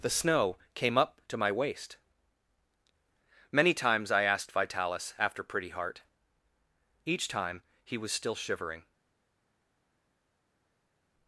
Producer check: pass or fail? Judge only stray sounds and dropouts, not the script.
pass